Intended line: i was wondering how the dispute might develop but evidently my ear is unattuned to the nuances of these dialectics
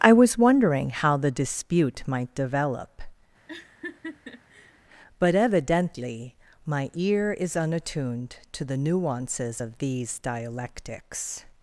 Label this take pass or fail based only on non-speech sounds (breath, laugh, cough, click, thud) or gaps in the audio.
fail